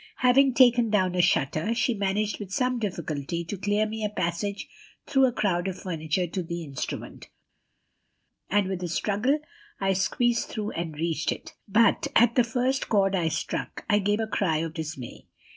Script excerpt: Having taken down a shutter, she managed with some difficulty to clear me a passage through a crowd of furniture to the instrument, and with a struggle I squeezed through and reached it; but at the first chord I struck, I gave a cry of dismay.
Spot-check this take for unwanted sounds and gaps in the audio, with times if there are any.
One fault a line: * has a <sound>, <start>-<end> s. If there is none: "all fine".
all fine